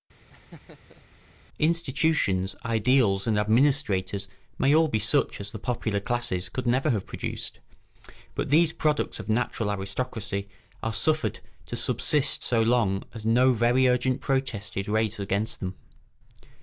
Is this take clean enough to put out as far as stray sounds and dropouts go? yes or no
no